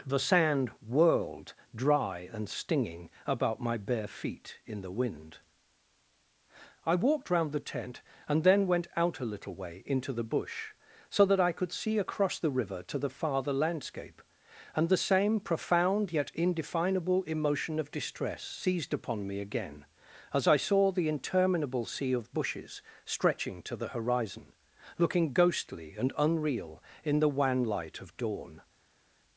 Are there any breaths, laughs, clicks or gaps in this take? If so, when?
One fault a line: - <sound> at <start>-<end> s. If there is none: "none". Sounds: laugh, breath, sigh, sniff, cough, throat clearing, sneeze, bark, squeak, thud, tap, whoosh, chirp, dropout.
none